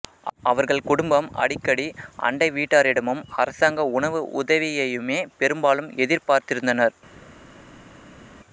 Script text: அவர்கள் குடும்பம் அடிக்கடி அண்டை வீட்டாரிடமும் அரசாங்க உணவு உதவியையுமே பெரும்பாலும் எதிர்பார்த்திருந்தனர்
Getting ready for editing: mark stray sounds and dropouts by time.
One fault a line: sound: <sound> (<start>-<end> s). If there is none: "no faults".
no faults